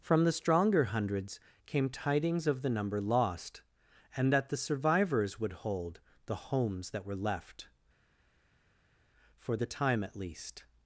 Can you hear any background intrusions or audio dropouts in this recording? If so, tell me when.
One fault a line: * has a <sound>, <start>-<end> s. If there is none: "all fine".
all fine